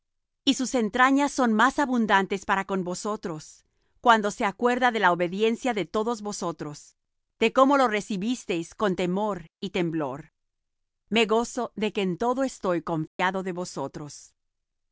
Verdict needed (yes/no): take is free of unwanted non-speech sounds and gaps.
no